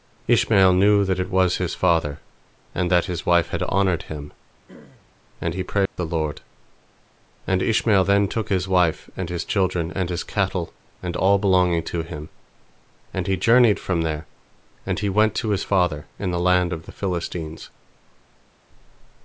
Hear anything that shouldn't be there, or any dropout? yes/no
yes